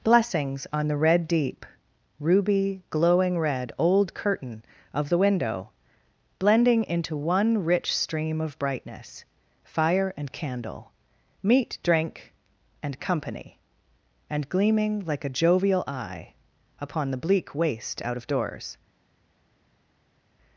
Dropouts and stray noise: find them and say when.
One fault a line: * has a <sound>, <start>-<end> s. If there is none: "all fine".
all fine